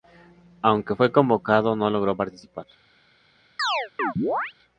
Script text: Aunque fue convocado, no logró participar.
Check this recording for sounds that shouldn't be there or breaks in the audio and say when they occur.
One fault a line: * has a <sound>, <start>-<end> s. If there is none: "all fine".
* has a chirp, 3.6-4.5 s